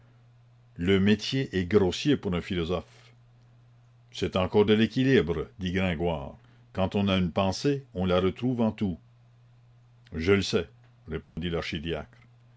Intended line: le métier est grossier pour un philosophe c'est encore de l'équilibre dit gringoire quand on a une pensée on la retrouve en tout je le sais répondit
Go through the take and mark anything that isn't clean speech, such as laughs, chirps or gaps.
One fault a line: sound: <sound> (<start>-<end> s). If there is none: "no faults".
sound: dropout (11.2-11.4 s)